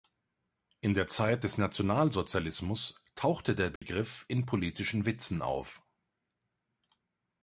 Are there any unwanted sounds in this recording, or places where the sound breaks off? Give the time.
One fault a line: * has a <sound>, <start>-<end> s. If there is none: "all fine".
* has a dropout, 3.8-3.8 s